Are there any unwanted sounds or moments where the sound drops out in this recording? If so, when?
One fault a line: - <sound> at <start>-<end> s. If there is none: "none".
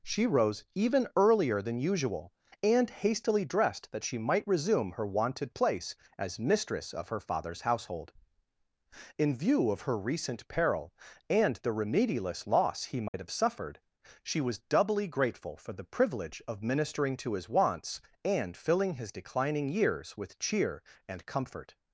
- dropout at 13.1-13.1 s